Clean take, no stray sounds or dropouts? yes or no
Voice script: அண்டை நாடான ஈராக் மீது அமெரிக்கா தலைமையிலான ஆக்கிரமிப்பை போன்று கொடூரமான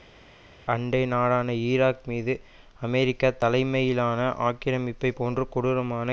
yes